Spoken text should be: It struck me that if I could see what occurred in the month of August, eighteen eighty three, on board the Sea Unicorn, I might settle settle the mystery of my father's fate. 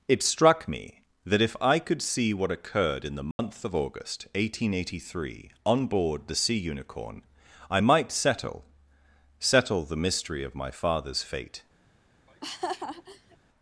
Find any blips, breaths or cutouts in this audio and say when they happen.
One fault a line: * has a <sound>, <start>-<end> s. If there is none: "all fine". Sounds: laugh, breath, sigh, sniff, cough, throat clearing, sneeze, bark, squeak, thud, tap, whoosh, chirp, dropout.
* has a dropout, 3.3-3.4 s
* has a laugh, 12.3-13.4 s